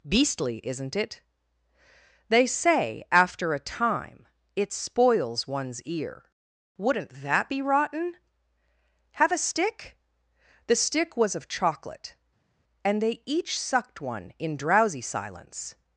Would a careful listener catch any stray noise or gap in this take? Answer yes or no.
no